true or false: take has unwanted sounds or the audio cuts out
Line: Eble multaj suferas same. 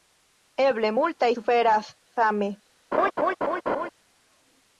true